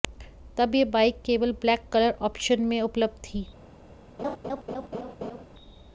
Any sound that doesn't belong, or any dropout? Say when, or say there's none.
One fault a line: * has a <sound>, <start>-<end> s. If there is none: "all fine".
* has a laugh, 4.2-5.4 s